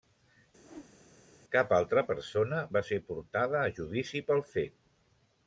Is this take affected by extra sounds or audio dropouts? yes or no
yes